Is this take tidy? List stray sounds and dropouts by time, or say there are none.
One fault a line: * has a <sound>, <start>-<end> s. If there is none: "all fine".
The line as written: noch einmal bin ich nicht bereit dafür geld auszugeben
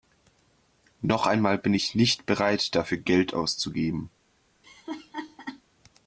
* has a laugh, 4.6-5.6 s